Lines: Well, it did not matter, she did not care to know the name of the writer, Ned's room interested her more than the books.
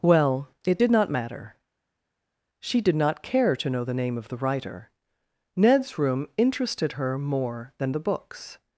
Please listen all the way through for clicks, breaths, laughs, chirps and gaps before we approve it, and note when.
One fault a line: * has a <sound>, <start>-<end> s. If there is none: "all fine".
all fine